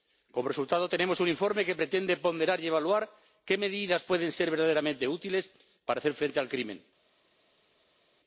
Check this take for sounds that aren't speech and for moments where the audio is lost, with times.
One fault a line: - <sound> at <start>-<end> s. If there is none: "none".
none